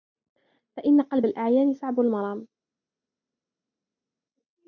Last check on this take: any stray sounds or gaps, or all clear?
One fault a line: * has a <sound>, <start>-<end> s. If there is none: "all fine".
all fine